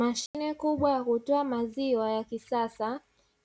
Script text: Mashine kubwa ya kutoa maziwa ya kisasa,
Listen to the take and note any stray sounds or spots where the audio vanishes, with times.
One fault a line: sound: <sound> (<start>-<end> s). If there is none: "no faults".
sound: dropout (0.3-0.3 s)